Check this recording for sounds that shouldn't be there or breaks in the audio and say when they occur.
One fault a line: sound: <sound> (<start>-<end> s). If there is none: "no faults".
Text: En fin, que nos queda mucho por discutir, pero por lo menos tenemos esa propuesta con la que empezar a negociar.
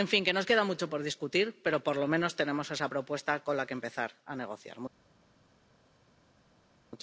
no faults